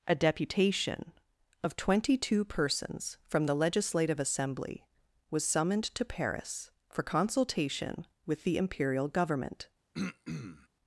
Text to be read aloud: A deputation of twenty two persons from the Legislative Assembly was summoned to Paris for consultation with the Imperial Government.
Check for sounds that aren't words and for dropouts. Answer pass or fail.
fail